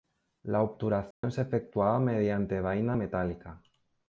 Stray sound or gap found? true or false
true